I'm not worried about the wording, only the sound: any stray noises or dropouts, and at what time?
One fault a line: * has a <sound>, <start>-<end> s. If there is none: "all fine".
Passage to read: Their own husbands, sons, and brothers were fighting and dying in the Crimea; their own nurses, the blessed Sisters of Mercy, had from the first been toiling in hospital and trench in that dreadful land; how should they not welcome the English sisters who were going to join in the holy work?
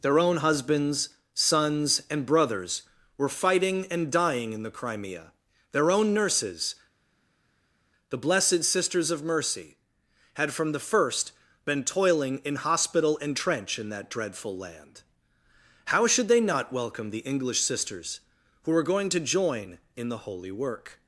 all fine